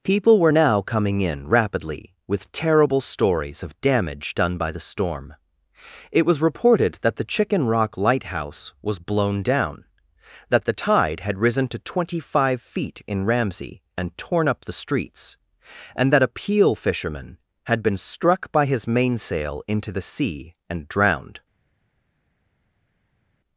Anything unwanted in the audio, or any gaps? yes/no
no